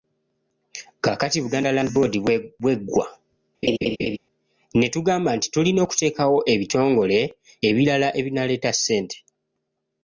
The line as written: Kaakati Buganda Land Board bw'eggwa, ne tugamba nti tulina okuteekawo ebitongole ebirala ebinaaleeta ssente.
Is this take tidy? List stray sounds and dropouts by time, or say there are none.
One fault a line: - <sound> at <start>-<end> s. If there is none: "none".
- laugh at 3.6-4.2 s